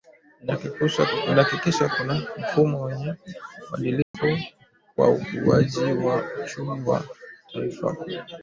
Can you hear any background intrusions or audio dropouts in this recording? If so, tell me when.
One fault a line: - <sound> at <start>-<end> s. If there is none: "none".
- dropout at 4.0-4.1 s